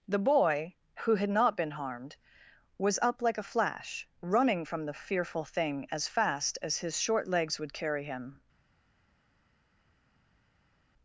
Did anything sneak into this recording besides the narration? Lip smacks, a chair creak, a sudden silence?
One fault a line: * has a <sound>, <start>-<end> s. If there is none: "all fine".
all fine